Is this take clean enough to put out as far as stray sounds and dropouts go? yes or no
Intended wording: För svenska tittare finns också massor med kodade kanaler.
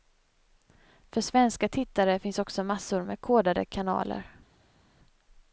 yes